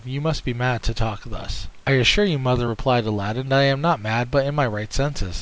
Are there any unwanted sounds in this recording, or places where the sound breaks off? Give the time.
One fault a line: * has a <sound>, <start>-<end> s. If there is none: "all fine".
all fine